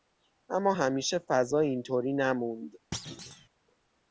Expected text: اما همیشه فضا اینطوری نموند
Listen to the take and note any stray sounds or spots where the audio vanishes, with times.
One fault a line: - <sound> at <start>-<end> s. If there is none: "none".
- thud at 2.9-3.5 s